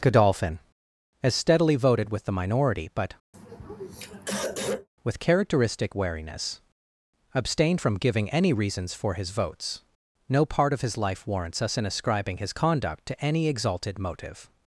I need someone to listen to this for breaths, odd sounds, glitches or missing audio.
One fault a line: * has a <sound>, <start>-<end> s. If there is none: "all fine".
* has a throat clearing, 3.3-4.9 s